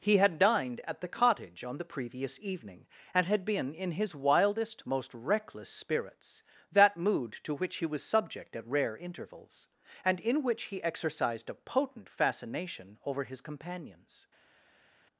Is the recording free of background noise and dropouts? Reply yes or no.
yes